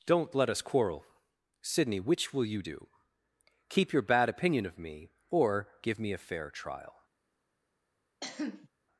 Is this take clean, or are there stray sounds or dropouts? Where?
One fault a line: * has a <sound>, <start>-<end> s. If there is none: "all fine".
* has a cough, 8.2-8.7 s